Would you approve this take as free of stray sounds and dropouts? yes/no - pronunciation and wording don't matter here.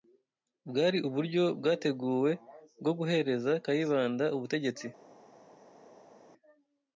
yes